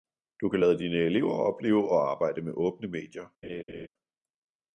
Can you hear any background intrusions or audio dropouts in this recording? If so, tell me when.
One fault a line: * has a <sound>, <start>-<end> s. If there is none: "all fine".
* has a laugh, 3.4-3.9 s